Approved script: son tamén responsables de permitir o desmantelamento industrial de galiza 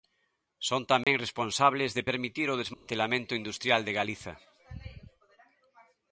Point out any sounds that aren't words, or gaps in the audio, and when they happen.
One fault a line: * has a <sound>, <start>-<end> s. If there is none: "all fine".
* has a dropout, 1.0-1.1 s
* has a dropout, 2.7-2.9 s